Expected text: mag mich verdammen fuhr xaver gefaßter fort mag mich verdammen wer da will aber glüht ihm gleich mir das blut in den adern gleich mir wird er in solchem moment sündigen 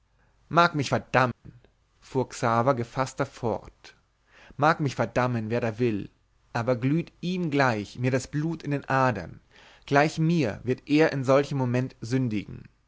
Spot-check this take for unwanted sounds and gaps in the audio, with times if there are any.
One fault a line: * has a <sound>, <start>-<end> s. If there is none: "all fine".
* has a dropout, 1.3-1.4 s